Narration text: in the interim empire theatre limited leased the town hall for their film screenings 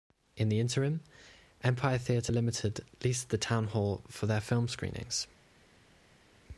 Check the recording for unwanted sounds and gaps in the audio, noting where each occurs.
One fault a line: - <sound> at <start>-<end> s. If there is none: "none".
none